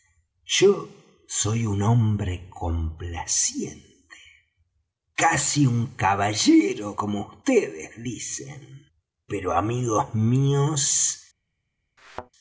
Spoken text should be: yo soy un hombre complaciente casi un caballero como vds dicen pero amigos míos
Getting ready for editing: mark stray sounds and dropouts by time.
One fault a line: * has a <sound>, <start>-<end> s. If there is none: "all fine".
* has a thud, 12.0-12.3 s